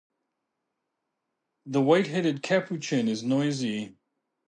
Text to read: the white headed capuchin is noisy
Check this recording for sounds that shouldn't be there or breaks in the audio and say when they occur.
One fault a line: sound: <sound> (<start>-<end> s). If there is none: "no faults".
no faults